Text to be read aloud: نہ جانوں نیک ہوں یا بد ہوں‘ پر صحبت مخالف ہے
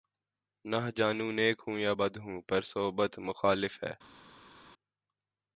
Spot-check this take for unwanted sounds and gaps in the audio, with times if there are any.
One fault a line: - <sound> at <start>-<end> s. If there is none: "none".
none